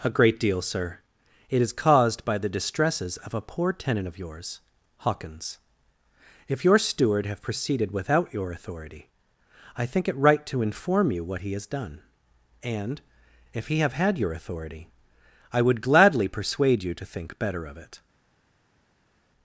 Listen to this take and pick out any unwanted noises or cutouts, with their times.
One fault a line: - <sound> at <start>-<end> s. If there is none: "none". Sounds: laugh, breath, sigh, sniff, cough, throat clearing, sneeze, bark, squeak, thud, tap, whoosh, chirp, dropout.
none